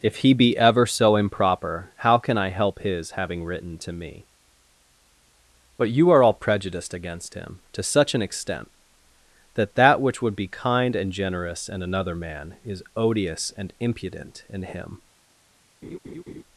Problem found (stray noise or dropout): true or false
true